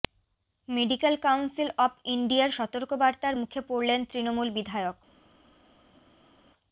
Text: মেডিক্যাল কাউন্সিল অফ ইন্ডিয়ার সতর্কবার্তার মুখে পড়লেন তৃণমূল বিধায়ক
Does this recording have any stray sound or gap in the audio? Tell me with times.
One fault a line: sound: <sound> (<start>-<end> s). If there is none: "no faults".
no faults